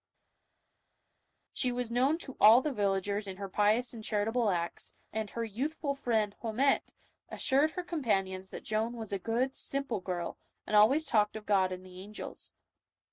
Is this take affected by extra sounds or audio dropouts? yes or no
no